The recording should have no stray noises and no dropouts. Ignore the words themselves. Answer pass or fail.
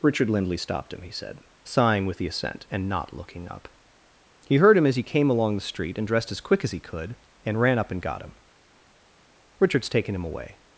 pass